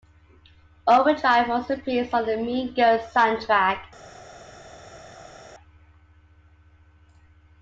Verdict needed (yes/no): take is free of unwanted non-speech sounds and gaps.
yes